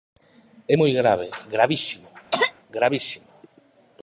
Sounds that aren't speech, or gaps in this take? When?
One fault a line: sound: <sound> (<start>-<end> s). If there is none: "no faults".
sound: cough (2.3-2.5 s)